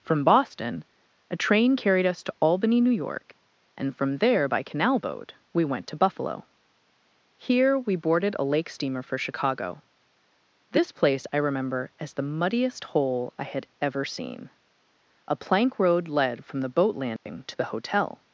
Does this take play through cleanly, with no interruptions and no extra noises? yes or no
no